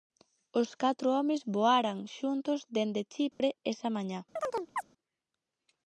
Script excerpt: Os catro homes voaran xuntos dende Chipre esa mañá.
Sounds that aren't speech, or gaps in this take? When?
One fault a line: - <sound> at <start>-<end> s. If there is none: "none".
- dropout at 3.3-3.4 s
- chirp at 4.4-4.8 s